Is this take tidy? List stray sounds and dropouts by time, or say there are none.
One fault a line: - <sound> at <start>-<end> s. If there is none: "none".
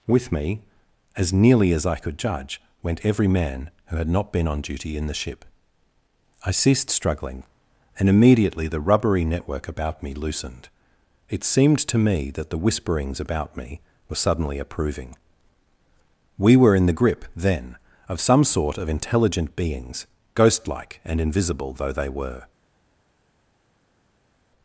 none